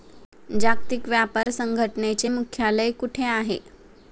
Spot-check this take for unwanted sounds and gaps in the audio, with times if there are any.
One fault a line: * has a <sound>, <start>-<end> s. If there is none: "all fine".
* has a dropout, 1.4-1.5 s